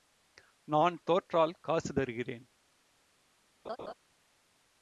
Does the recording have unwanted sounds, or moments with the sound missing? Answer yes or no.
yes